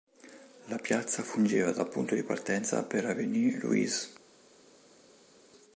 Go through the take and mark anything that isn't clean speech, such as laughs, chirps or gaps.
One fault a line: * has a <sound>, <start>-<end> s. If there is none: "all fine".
all fine